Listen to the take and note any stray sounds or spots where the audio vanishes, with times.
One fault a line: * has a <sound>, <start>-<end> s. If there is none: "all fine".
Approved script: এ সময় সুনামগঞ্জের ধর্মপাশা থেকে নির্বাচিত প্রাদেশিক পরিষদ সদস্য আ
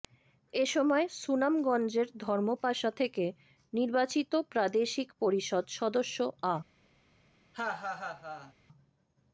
* has a laugh, 7.5-8.5 s